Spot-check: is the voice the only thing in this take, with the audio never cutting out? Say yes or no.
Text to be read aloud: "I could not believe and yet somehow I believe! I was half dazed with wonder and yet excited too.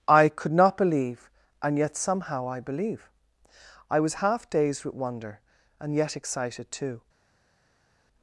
yes